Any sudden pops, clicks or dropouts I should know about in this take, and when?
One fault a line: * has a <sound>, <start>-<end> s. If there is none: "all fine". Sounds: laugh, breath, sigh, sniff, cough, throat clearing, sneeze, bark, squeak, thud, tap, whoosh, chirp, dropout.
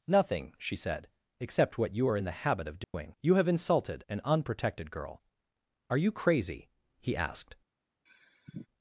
* has a dropout, 2.8-2.9 s
* has a sigh, 8.1-8.7 s